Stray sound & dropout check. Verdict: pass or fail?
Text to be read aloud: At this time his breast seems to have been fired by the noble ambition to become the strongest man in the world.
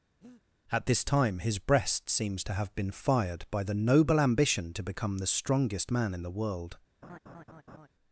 fail